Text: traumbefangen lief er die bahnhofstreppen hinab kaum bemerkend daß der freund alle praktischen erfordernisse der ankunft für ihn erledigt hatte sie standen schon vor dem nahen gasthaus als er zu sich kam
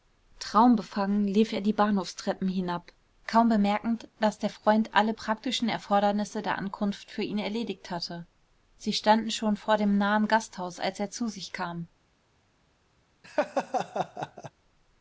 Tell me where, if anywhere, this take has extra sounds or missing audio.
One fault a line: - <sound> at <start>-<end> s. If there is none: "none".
- laugh at 13.2-14.5 s